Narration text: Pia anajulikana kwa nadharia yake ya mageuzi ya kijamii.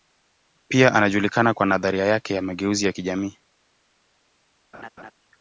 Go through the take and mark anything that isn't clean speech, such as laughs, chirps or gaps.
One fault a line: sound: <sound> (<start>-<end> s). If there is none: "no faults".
sound: laugh (4.7-5.1 s)